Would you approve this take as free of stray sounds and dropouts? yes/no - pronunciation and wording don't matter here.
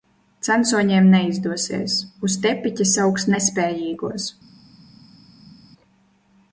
yes